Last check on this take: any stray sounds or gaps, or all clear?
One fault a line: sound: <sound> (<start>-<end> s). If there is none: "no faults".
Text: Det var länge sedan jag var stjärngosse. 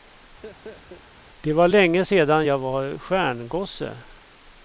sound: laugh (0.4-1.1 s)